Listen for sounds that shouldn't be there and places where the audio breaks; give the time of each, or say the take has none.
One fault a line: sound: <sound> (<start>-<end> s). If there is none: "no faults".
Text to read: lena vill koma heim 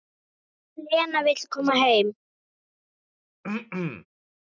sound: throat clearing (3.4-4.1 s)